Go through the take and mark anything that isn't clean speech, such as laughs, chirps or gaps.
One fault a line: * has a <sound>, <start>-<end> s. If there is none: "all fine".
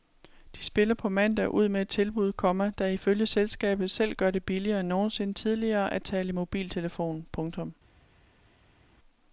all fine